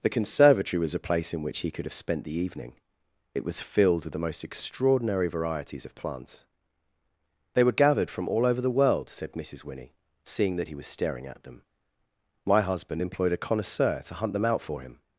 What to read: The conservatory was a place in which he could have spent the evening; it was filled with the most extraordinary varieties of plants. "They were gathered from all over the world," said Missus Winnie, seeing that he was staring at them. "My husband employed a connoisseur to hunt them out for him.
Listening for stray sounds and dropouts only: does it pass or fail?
pass